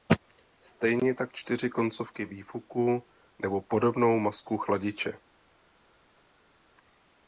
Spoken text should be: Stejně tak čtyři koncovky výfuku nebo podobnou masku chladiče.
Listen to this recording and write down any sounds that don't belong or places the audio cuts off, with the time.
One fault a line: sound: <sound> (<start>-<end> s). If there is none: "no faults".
no faults